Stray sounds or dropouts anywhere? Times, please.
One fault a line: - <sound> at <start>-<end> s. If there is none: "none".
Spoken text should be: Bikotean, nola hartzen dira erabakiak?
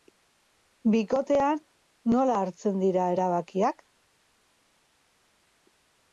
none